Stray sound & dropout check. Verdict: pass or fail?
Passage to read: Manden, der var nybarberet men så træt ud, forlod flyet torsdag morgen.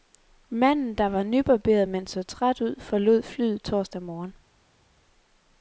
pass